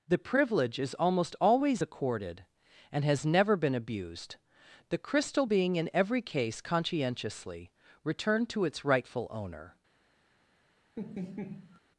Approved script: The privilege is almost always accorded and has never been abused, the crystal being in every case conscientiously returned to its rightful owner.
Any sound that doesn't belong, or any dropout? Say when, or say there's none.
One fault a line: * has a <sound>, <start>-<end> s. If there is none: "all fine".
* has a laugh, 11.0-11.8 s